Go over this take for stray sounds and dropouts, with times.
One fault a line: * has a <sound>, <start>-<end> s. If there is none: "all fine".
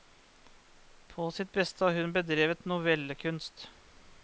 all fine